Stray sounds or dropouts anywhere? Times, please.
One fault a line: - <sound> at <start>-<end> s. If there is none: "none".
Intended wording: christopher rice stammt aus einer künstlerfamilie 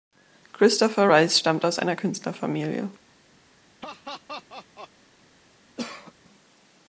- laugh at 3.8-4.9 s
- cough at 5.8-6.1 s